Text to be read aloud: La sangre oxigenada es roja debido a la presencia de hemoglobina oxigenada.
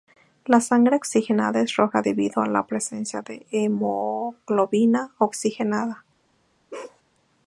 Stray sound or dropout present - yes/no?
yes